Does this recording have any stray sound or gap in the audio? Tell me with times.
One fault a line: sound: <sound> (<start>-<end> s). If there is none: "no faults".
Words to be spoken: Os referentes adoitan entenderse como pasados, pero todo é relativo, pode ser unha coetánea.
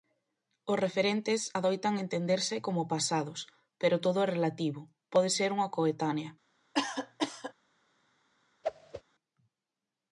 sound: cough (6.7-7.5 s)
sound: whoosh (8.6-9.0 s)